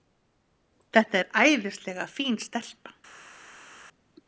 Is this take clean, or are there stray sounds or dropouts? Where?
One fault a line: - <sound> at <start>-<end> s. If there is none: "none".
none